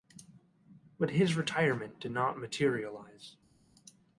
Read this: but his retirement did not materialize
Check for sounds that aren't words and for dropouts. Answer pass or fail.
pass